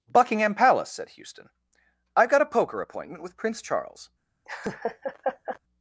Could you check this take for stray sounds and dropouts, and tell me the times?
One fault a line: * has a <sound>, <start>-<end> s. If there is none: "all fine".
* has a laugh, 4.5-5.6 s